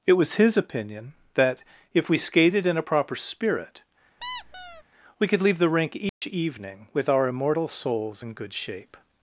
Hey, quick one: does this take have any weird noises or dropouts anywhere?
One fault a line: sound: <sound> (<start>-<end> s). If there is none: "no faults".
sound: squeak (4.2-4.8 s)
sound: dropout (6.1-6.2 s)